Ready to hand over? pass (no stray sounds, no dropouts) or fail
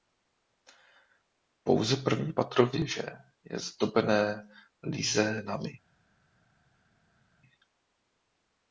pass